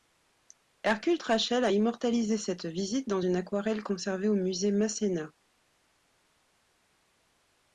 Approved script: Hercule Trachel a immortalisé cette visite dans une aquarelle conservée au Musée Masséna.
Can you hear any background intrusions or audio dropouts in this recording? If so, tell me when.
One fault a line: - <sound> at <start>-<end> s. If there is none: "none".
none